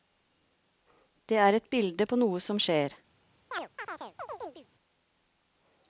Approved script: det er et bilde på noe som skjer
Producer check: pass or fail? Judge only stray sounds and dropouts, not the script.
fail